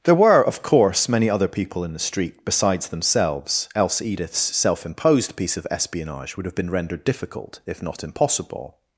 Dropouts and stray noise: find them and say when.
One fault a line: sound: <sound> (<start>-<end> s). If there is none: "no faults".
no faults